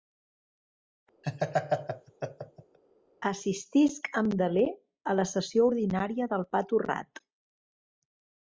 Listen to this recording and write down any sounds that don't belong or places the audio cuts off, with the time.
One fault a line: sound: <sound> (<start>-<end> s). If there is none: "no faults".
sound: laugh (1.2-2.8 s)